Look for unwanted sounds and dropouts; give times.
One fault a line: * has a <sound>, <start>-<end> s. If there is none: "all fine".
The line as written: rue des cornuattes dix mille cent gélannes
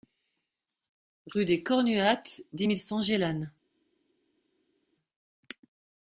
all fine